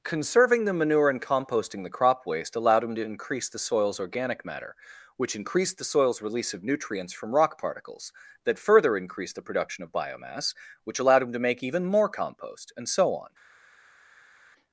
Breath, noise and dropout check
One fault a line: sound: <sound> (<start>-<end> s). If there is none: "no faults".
no faults